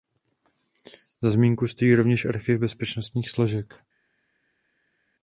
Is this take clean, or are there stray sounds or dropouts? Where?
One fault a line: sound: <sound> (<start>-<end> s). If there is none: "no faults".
no faults